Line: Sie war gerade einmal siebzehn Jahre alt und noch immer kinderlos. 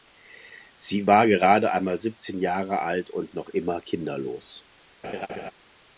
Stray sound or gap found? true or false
true